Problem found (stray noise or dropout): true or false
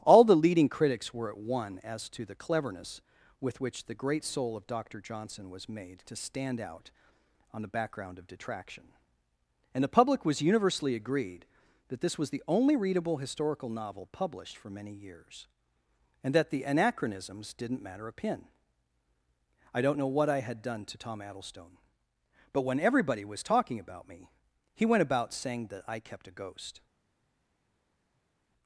false